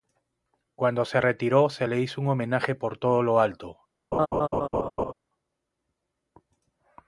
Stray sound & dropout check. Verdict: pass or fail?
fail